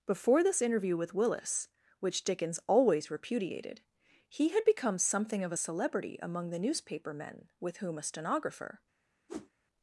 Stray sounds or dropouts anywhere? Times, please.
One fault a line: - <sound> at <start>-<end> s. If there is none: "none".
- whoosh at 9.3-9.5 s